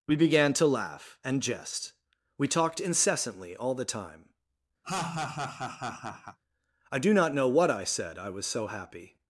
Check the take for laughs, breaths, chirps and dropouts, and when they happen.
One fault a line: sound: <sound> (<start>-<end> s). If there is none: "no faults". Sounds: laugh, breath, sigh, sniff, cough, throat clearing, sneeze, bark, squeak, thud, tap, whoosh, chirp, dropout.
sound: laugh (4.8-6.4 s)